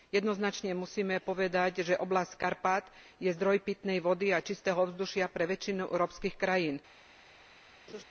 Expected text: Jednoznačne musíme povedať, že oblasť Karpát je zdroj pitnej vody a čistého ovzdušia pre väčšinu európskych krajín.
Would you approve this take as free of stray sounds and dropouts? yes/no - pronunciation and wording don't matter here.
no